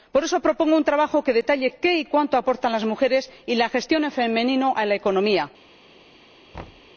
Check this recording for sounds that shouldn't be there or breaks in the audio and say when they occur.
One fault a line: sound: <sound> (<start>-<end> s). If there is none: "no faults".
sound: thud (6.5-6.9 s)